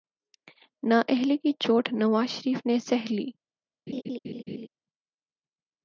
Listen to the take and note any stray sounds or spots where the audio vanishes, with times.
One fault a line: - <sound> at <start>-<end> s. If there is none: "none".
- laugh at 3.9-4.7 s